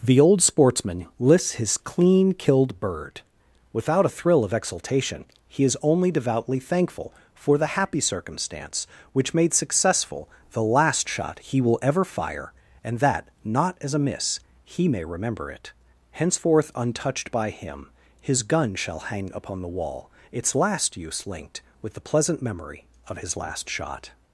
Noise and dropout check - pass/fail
pass